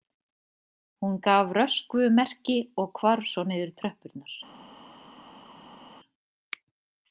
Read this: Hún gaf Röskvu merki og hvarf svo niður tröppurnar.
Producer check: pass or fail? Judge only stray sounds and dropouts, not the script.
pass